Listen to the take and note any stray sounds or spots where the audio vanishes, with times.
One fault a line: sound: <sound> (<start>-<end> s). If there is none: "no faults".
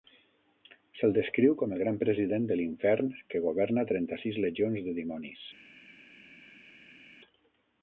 no faults